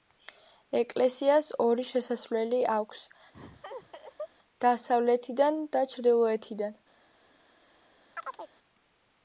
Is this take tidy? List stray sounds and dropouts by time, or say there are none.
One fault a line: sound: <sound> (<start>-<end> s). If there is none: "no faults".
sound: laugh (3.3-4.3 s)
sound: chirp (8.1-8.5 s)